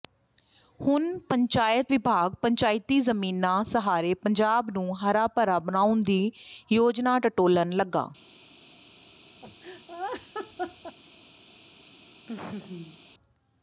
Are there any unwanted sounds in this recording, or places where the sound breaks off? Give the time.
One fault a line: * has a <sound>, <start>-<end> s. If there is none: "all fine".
* has a laugh, 9.4-11.0 s
* has a laugh, 12.3-13.0 s